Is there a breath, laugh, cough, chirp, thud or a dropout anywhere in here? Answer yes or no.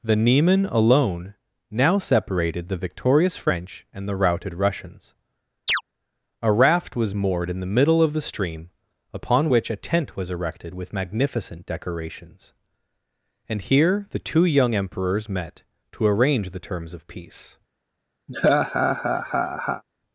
yes